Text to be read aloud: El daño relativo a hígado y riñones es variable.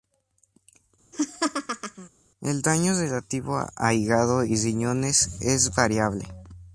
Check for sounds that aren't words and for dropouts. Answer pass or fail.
fail